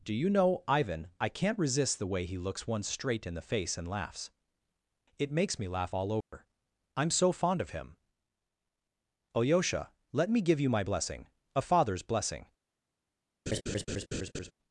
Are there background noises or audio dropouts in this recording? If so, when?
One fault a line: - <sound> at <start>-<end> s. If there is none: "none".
- dropout at 6.2-6.3 s
- laugh at 13.5-14.5 s